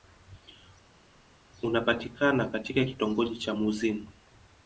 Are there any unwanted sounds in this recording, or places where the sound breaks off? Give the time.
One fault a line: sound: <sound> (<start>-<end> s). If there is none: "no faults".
no faults